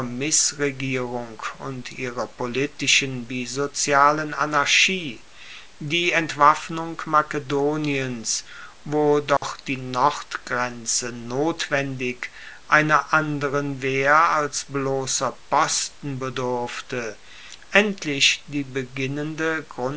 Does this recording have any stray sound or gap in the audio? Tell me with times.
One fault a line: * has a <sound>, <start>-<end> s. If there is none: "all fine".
* has a dropout, 9.4-9.4 s